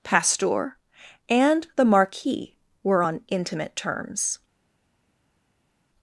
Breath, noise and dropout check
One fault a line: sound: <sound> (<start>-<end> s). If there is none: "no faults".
no faults